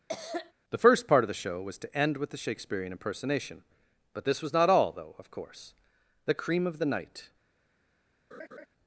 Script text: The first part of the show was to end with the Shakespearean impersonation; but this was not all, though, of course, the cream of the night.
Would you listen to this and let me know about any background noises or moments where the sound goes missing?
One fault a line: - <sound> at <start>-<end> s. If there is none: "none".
- cough at 0.1-0.5 s
- laugh at 8.3-8.7 s